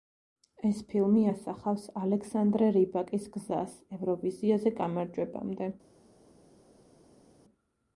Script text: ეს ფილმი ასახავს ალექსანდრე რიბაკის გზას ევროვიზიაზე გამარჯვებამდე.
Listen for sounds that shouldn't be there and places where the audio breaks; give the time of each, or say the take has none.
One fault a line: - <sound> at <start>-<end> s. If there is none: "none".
none